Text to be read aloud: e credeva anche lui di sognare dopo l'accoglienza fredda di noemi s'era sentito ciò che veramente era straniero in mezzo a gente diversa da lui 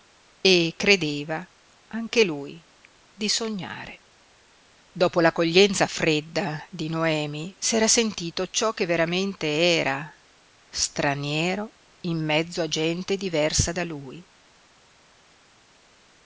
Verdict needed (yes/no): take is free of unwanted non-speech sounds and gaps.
yes